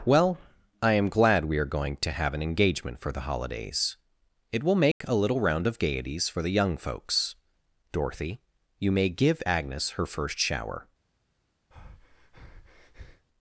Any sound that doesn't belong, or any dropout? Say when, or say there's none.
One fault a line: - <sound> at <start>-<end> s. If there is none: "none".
- dropout at 4.9-5.0 s
- breath at 11.7-13.3 s